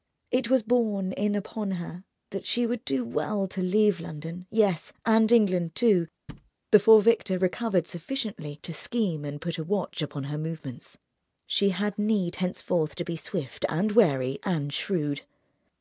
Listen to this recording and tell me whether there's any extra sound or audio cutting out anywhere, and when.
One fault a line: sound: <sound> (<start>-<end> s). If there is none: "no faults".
sound: thud (6.3-6.5 s)